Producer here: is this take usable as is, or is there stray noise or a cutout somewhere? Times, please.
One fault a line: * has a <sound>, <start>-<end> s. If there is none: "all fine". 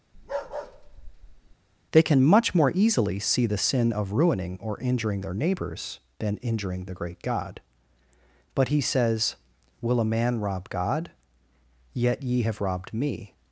* has a bark, 0.1-1.6 s